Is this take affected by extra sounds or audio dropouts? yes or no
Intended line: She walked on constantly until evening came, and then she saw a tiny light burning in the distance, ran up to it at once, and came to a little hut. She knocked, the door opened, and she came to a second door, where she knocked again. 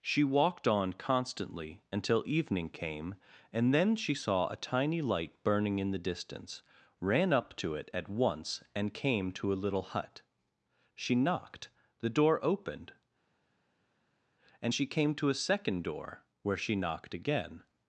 no